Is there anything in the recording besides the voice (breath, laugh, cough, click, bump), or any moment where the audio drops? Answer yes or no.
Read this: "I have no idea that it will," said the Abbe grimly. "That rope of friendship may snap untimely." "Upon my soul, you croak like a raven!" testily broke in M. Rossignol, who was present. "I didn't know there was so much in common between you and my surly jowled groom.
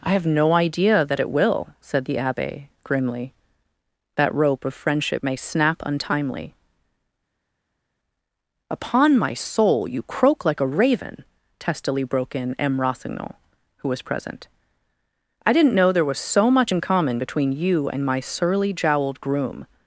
no